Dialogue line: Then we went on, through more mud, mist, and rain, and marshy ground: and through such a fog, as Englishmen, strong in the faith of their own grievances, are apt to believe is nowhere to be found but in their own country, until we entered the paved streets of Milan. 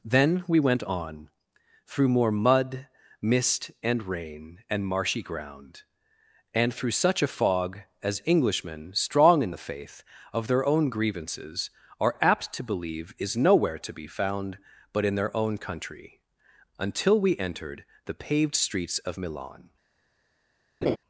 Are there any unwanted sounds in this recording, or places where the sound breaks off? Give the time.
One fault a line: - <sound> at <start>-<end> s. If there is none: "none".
- laugh at 20.8-21.0 s